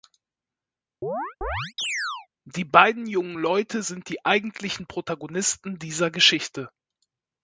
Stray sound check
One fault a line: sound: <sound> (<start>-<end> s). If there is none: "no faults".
sound: chirp (1.0-2.3 s)